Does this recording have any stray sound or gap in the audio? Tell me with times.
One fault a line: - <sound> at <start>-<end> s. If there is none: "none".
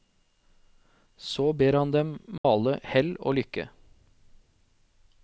- dropout at 2.4-2.4 s